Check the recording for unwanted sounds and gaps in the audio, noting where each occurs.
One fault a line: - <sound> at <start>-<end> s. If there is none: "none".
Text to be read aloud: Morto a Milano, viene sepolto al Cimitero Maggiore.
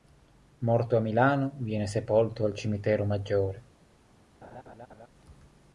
- laugh at 4.4-5.1 s